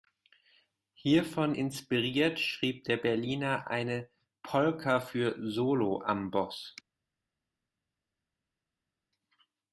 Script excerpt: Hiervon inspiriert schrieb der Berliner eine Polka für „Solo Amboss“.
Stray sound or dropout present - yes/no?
no